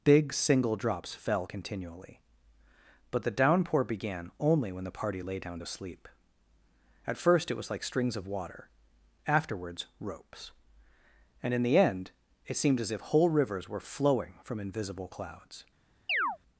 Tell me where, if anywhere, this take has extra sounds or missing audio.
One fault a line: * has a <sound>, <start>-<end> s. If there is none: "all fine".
* has a chirp, 16.1-16.4 s